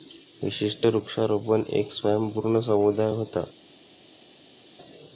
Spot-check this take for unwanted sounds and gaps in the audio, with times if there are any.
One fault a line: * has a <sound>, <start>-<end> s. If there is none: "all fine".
all fine